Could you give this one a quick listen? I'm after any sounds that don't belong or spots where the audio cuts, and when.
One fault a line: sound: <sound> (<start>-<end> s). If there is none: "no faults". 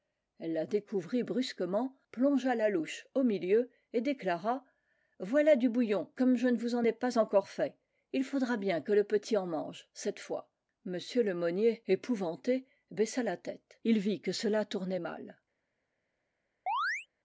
sound: chirp (16.7-17.1 s)